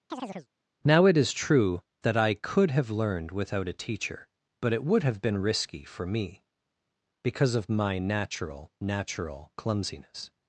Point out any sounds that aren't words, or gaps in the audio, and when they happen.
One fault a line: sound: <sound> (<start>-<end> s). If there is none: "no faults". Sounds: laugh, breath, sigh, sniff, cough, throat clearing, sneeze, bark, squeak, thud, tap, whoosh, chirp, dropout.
sound: chirp (0.1-0.5 s)